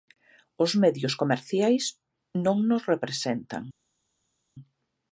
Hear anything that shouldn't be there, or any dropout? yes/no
no